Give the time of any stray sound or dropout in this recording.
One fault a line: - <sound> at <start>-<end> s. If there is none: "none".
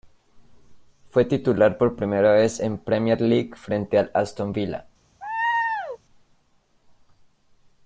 - laugh at 5.2-6.0 s